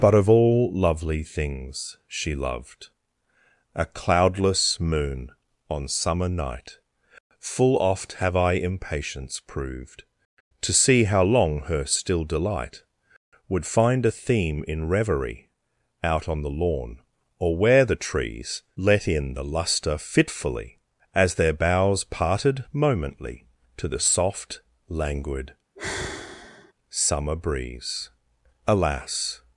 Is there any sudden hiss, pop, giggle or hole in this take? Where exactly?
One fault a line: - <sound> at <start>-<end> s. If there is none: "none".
- sigh at 25.7-26.7 s